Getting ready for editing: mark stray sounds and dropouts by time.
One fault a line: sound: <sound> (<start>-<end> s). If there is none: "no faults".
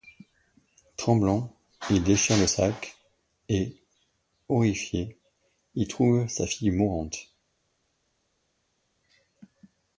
no faults